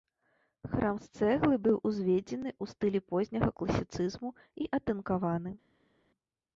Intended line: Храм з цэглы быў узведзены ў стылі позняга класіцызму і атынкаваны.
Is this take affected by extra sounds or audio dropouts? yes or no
no